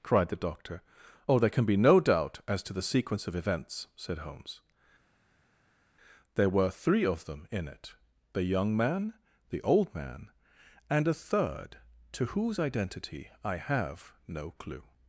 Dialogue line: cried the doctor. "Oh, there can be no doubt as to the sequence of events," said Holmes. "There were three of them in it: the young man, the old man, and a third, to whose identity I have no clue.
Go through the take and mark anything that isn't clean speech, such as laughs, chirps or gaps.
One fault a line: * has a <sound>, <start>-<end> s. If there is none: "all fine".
all fine